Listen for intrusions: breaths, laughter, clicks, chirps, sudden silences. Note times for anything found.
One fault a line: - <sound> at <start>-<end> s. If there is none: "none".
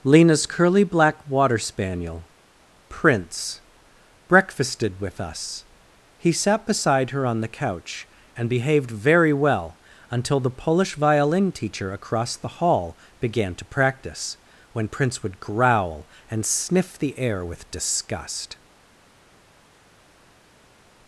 none